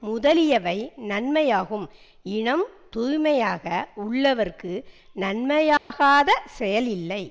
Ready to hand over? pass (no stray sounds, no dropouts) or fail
fail